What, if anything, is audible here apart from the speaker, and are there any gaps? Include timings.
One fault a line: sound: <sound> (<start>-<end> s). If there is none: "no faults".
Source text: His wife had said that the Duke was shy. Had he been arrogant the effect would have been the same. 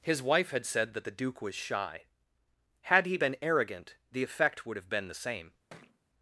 sound: thud (5.7-6.0 s)